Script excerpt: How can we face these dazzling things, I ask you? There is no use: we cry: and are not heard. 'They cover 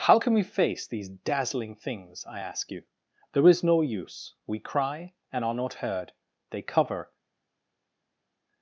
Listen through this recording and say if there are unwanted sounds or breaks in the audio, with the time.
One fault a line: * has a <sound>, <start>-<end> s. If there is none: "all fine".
all fine